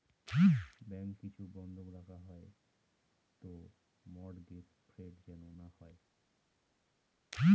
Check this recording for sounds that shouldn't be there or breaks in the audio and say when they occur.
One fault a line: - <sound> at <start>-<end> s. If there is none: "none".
none